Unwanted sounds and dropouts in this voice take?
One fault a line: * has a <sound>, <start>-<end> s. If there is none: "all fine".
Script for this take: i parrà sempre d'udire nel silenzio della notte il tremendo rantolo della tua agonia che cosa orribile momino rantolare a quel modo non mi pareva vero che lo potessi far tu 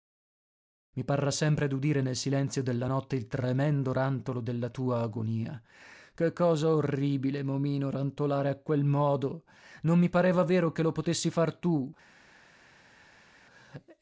all fine